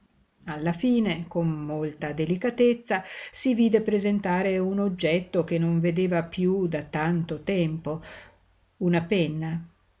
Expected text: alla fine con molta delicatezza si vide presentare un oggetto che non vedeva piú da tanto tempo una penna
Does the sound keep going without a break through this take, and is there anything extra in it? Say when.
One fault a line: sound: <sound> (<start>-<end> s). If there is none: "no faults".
no faults